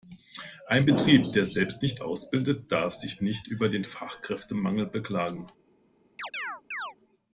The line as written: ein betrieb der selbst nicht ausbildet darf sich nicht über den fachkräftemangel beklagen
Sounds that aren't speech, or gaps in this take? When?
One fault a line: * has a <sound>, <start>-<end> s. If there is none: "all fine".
* has a chirp, 6.2-6.9 s